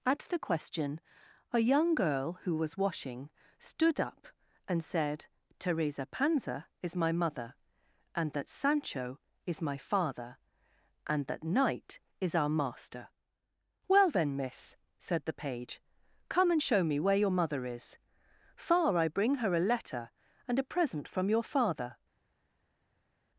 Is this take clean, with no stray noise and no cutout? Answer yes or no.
yes